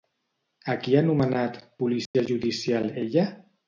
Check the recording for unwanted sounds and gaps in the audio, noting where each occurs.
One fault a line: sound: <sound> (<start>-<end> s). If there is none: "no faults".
sound: dropout (2.1-2.1 s)